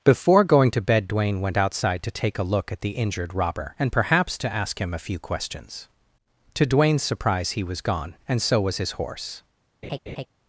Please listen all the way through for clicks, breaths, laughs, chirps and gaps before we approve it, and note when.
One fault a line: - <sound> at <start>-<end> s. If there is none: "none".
- laugh at 9.8-10.3 s